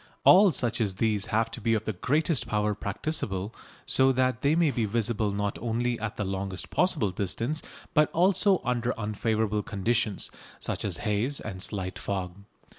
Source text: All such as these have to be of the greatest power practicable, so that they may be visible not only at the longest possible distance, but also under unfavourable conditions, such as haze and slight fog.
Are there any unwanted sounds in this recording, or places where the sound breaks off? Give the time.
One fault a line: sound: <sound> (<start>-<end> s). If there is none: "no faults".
no faults